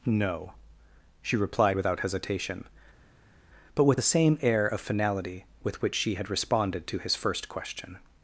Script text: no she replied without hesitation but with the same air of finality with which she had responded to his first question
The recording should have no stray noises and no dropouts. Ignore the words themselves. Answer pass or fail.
pass